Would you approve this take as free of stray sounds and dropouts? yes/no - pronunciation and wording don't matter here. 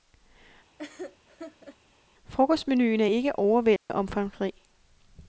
no